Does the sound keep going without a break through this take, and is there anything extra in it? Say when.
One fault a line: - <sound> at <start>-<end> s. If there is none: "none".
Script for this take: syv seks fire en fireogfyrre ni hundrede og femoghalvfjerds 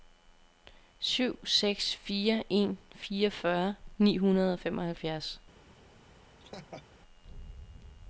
- laugh at 6.4-6.9 s